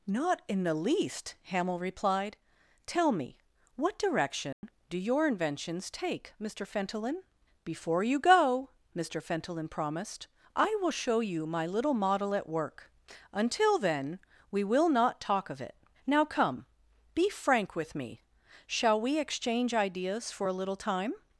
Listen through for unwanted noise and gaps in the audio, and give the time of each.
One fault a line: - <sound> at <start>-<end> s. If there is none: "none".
- dropout at 4.5-4.6 s